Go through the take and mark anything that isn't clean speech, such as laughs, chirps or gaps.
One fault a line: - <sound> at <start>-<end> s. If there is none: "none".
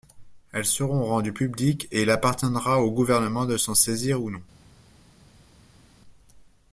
none